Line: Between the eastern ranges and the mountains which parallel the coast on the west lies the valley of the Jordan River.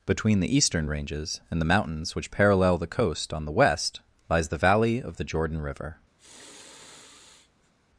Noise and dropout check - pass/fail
fail